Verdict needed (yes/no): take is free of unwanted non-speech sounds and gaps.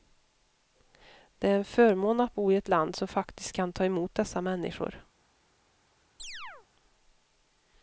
no